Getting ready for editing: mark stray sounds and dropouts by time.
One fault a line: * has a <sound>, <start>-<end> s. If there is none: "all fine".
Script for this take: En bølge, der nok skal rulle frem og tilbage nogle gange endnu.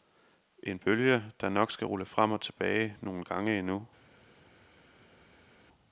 all fine